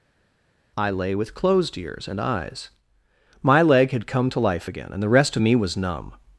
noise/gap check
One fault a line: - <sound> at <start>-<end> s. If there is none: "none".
none